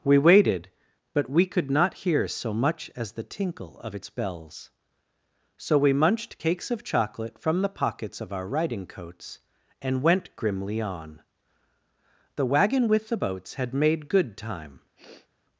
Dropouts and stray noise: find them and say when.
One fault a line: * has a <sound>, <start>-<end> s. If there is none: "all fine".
* has a sniff, 15.0-15.3 s